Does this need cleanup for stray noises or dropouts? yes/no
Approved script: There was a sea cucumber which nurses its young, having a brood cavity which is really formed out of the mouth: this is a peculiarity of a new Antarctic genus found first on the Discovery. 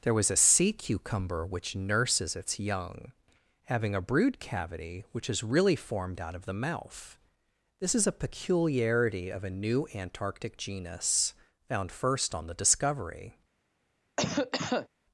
yes